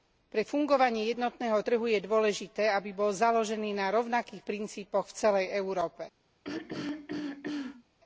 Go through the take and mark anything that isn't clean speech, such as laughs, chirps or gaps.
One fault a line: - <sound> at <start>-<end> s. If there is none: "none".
- throat clearing at 6.4-7.8 s